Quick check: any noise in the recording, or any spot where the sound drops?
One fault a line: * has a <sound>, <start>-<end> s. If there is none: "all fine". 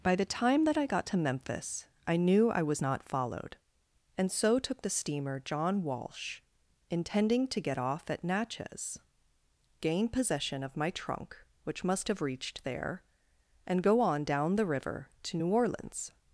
all fine